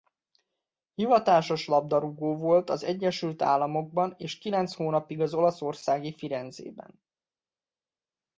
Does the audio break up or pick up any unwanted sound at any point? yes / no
no